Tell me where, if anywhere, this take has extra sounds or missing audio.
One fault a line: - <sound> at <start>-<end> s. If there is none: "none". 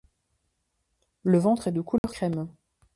- dropout at 2.0-2.0 s